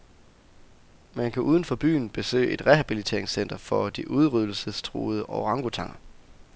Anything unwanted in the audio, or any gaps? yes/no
no